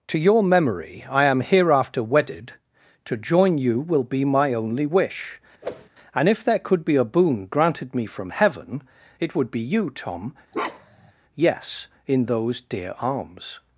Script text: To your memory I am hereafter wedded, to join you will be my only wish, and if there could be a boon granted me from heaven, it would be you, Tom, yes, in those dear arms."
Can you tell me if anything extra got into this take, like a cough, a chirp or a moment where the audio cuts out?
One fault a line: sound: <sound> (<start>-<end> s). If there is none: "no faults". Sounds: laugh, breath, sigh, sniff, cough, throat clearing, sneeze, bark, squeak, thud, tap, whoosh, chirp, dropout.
sound: whoosh (5.6-5.9 s)
sound: bark (10.5-11.1 s)